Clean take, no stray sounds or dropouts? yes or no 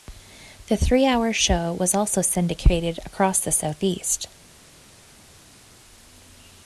yes